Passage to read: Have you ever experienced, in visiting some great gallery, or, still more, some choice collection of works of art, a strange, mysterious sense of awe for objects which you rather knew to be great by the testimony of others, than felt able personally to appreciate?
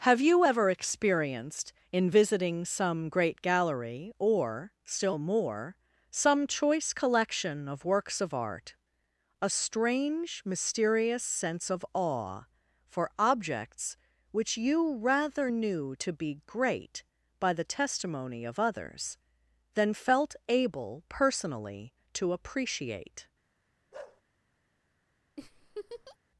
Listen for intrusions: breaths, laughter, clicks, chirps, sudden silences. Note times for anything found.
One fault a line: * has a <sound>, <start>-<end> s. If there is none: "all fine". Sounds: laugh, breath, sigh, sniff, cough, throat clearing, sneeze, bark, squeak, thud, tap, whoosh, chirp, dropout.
* has a bark, 23.9-24.2 s
* has a laugh, 25.4-26.2 s